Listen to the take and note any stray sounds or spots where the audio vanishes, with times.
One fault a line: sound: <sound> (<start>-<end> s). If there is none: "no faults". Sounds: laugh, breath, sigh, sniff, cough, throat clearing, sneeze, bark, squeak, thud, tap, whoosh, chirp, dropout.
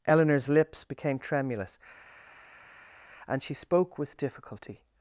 no faults